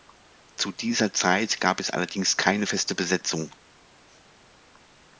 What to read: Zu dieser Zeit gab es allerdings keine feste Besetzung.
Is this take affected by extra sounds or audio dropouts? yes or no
no